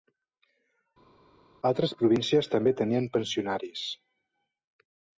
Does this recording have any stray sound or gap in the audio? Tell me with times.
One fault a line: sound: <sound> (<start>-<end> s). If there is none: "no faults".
no faults